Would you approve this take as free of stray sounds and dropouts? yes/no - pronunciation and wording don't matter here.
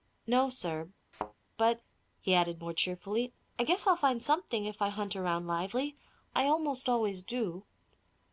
no